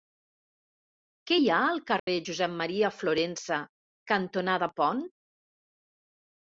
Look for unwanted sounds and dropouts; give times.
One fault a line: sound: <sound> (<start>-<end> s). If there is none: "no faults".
sound: dropout (2.0-2.1 s)